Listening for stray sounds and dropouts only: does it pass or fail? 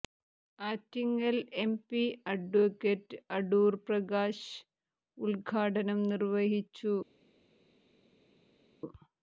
pass